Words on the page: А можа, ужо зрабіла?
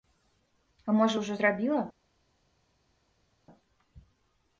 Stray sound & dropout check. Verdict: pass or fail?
pass